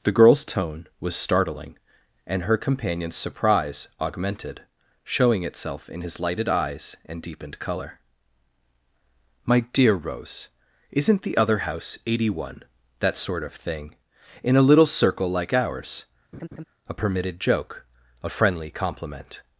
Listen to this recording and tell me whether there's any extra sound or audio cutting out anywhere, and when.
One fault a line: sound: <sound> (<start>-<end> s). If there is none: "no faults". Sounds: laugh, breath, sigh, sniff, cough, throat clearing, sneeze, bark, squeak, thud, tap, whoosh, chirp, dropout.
sound: laugh (16.3-16.6 s)